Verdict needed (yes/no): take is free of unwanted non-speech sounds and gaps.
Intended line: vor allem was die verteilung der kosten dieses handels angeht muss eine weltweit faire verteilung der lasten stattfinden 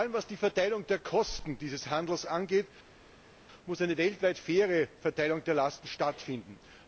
yes